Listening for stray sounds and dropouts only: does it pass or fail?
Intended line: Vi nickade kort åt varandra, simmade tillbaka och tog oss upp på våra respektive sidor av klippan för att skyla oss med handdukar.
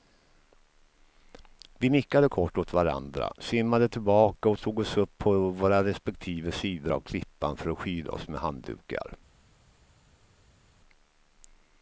pass